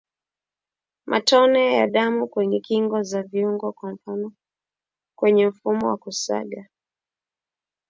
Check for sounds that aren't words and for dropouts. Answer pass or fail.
pass